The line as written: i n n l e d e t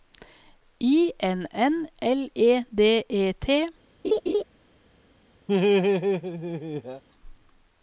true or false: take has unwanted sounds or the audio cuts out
true